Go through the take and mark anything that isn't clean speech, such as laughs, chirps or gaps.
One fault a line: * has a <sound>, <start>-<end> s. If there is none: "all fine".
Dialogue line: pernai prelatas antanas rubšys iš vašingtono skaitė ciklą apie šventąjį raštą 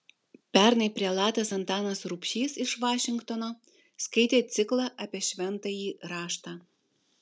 all fine